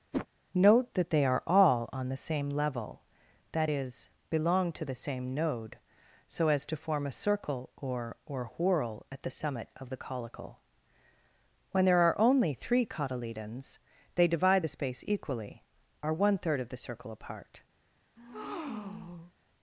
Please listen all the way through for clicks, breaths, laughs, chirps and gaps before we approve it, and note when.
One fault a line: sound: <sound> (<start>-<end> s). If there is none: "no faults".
sound: whoosh (0.1-0.3 s)
sound: breath (18.2-19.3 s)